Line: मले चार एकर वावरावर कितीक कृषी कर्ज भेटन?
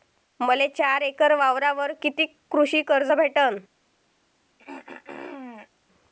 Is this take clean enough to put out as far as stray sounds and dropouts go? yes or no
no